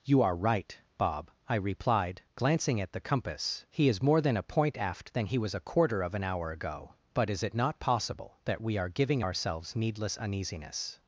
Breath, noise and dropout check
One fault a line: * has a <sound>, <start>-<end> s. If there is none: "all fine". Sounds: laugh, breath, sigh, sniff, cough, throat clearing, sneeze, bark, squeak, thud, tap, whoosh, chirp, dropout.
all fine